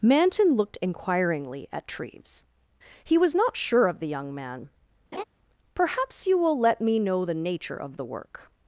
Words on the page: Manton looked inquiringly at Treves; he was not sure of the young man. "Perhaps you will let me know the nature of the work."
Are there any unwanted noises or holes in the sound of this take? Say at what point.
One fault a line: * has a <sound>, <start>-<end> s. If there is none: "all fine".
* has a laugh, 5.1-5.2 s